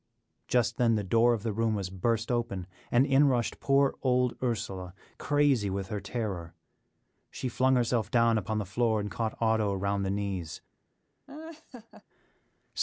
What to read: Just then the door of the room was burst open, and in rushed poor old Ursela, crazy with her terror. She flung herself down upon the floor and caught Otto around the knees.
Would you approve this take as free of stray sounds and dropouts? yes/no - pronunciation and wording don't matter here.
no